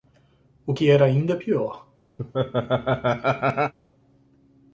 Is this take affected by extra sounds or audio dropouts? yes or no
yes